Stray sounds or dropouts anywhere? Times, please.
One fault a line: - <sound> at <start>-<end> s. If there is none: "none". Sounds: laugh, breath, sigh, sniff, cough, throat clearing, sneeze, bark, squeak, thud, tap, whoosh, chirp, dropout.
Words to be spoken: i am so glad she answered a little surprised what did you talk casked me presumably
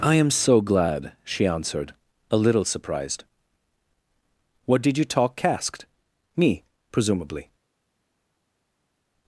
none